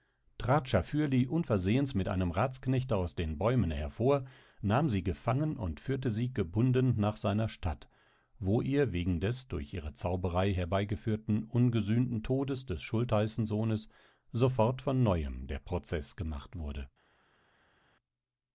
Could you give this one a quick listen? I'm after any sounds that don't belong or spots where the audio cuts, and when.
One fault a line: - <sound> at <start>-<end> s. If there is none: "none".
none